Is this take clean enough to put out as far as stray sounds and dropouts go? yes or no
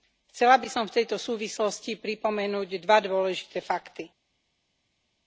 yes